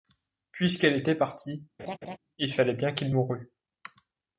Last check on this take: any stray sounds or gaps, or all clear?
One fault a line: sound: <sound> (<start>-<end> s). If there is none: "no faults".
sound: laugh (1.8-2.2 s)